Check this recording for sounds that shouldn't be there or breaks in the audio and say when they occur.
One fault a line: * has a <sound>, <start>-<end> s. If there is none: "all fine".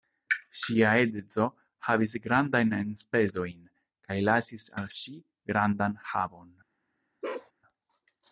* has a bark, 7.2-7.5 s